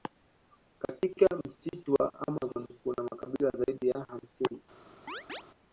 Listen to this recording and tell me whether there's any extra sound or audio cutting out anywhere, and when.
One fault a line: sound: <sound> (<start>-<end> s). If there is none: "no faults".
sound: chirp (5.1-5.4 s)